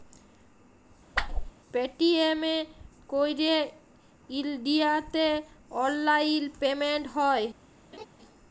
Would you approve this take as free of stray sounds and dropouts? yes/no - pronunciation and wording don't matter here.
no